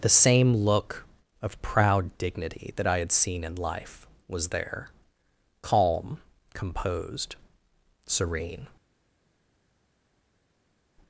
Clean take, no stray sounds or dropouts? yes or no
yes